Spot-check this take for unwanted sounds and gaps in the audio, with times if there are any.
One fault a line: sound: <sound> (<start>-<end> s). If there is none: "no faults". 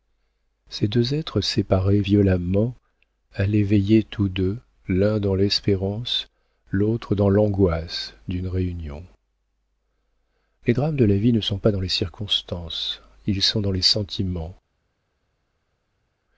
no faults